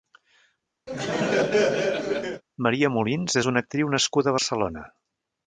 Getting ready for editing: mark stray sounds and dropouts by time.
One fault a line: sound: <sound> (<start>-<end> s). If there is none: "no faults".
sound: laugh (0.9-2.4 s)